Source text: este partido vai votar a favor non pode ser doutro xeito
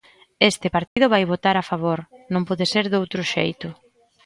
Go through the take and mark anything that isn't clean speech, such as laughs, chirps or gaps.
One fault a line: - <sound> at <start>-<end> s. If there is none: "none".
- dropout at 0.9-1.0 s